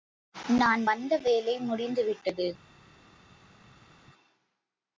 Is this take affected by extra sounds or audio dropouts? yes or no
no